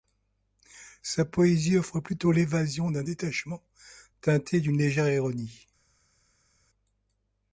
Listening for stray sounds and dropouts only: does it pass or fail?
pass